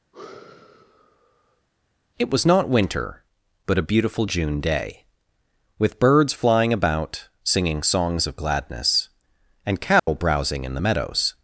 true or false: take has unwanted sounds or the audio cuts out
true